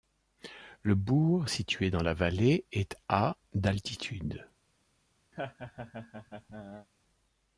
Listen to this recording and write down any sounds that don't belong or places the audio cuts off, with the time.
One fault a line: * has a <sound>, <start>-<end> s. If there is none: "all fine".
* has a laugh, 5.3-6.9 s